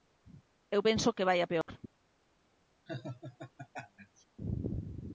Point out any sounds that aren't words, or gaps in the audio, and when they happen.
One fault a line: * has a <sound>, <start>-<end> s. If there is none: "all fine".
* has a dropout, 1.6-1.7 s
* has a laugh, 2.9-4.2 s